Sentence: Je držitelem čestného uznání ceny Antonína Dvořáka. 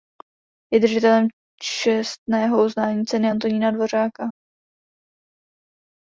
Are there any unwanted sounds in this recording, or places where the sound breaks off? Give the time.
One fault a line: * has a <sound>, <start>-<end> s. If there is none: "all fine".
all fine